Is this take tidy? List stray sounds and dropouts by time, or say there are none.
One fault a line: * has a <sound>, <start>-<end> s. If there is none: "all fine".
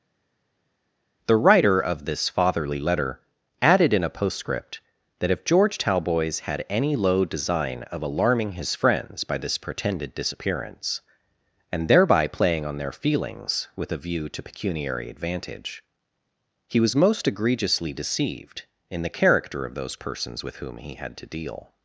all fine